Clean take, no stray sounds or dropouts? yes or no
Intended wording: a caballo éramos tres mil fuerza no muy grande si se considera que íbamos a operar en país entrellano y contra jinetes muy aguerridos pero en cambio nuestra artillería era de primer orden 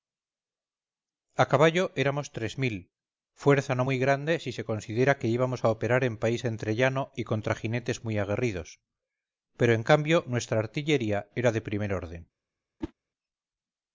no